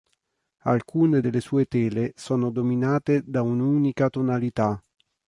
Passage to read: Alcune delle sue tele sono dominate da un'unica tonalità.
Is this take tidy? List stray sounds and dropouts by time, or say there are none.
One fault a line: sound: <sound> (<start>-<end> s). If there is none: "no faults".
no faults